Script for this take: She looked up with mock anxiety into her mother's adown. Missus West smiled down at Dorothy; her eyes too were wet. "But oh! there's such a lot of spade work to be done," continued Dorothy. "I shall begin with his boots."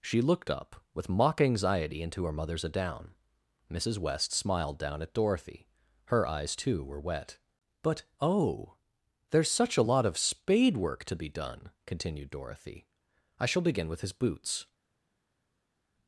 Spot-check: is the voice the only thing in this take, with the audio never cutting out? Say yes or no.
yes